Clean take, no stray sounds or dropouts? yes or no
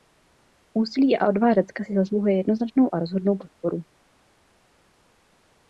yes